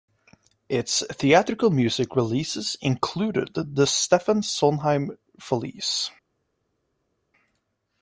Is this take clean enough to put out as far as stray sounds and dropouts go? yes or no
yes